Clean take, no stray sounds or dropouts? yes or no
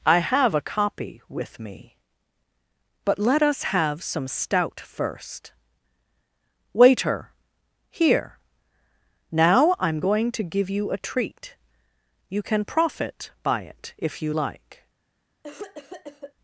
no